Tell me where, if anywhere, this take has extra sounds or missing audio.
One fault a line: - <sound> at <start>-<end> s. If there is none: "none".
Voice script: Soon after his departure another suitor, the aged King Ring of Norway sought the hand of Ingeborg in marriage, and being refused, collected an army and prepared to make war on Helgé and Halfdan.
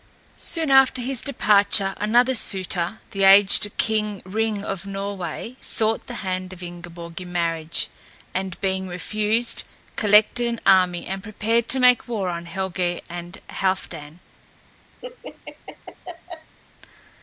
- laugh at 15.0-16.6 s